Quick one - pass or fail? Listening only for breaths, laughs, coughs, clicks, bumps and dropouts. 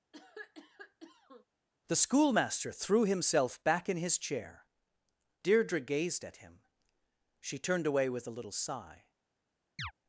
fail